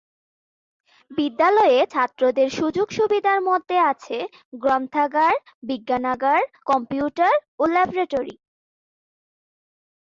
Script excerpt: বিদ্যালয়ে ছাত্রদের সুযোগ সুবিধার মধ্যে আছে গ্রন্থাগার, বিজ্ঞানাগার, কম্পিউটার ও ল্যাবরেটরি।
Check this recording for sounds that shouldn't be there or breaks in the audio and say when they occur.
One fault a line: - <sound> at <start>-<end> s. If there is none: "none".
none